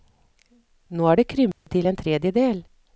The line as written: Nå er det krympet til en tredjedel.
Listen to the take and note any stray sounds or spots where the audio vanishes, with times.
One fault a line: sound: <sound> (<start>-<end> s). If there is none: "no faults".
sound: dropout (1.5-1.7 s)